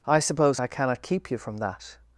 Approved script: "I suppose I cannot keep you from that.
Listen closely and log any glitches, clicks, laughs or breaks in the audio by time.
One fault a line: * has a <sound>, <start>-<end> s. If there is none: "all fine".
all fine